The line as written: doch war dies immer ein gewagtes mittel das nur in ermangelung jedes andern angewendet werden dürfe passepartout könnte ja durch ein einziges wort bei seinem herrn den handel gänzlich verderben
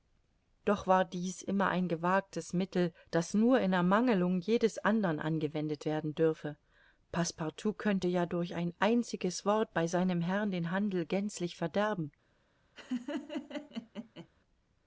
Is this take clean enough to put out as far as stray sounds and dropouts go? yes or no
no